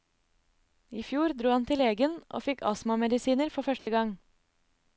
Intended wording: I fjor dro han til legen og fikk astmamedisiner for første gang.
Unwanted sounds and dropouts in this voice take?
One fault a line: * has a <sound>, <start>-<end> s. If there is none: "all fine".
* has a dropout, 3.8-3.9 s